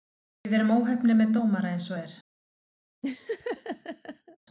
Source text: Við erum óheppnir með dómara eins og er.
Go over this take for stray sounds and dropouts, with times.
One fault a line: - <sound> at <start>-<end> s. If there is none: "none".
- laugh at 3.0-4.4 s